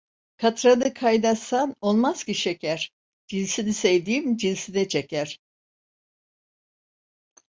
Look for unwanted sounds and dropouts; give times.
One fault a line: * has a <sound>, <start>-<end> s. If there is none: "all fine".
all fine